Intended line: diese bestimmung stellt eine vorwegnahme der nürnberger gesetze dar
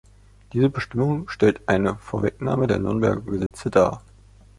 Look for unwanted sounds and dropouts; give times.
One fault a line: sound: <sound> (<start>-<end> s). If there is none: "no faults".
sound: dropout (3.5-3.5 s)